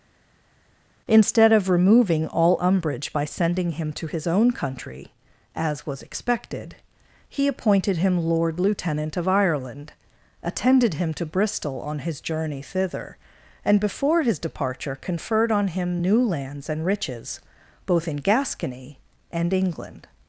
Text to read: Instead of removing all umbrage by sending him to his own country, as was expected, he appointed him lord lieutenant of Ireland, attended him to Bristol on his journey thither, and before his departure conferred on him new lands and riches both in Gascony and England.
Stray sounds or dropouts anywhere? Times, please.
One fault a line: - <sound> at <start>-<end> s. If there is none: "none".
none